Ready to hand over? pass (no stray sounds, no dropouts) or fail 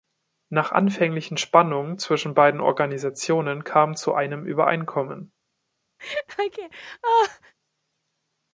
fail